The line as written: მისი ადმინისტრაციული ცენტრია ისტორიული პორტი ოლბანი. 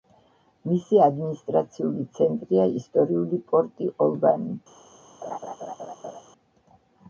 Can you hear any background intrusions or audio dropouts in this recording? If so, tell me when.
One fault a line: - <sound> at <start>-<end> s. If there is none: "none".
- laugh at 5.2-6.2 s